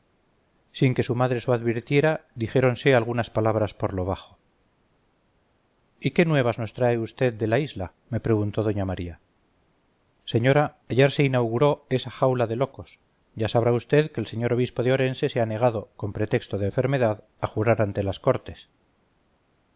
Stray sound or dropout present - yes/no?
no